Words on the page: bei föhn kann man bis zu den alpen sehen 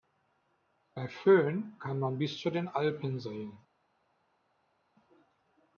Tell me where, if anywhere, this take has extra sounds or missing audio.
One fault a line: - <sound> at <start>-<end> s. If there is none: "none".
none